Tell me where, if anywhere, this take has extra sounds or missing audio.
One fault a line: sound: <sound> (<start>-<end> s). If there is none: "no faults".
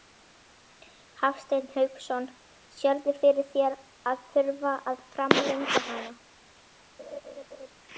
sound: laugh (7.0-7.7 s)